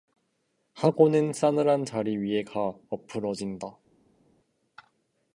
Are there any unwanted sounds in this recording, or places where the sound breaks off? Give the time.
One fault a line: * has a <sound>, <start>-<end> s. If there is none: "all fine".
all fine